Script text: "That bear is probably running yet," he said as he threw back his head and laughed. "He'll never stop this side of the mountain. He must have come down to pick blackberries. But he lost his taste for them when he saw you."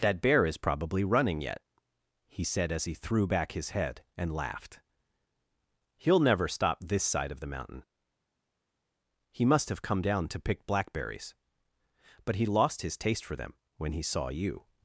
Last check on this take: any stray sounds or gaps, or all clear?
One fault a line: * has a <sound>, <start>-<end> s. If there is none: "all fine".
all fine